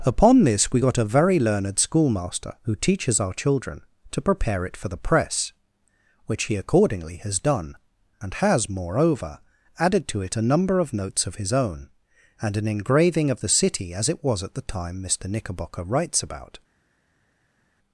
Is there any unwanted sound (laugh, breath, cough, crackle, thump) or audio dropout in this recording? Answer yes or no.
no